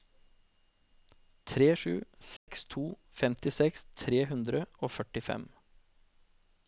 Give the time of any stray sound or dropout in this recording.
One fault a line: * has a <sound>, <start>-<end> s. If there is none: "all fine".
* has a dropout, 2.4-2.5 s